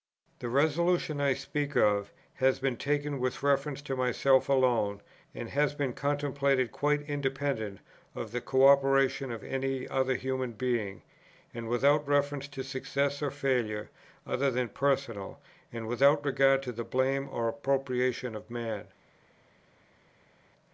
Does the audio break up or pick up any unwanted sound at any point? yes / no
no